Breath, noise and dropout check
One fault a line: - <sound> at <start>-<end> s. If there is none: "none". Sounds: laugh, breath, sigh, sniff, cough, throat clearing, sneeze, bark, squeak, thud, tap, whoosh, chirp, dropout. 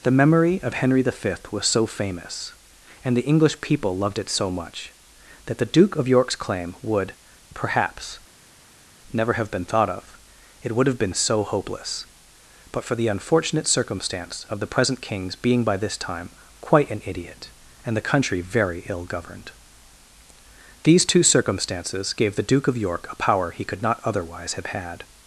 none